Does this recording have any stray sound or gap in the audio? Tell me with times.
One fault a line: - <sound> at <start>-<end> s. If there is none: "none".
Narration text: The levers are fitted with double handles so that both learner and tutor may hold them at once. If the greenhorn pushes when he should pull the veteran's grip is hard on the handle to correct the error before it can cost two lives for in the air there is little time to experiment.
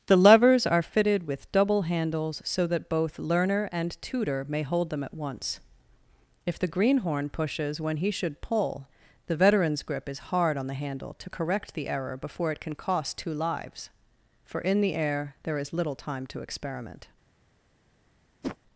- whoosh at 18.4-18.6 s